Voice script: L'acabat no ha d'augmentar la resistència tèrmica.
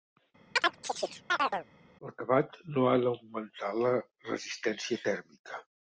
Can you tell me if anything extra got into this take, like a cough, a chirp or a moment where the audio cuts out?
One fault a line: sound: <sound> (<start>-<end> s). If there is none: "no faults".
sound: chirp (0.6-1.7 s)